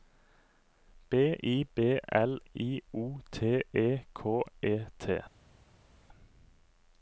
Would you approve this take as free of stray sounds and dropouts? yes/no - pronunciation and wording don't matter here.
yes